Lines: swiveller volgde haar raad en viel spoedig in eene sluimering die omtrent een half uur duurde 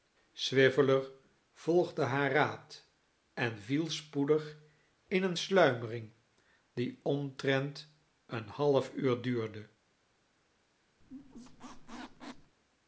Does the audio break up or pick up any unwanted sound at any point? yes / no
yes